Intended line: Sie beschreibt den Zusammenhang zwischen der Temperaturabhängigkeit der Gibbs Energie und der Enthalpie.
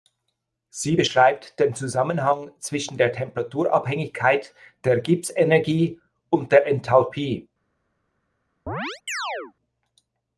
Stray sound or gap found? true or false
true